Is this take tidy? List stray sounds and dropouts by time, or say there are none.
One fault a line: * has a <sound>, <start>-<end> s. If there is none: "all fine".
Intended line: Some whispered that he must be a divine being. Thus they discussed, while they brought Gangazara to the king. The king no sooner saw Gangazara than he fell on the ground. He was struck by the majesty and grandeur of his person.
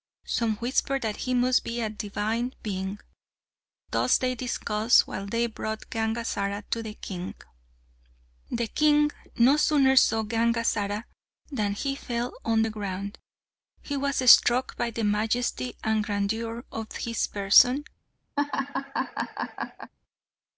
* has a laugh, 18.4-19.9 s